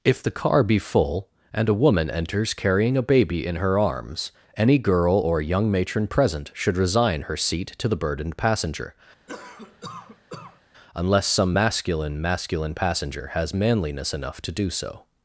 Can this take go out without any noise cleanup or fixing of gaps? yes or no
no